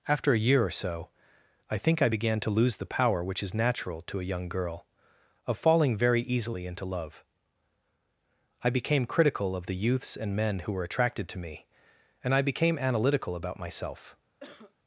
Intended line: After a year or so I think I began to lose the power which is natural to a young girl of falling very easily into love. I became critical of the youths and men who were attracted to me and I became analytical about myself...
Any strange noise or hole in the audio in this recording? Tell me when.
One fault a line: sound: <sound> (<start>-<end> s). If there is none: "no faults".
sound: cough (14.4-14.7 s)